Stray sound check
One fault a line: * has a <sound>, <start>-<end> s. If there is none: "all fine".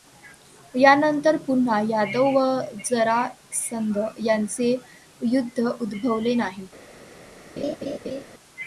* has a laugh, 7.6-8.2 s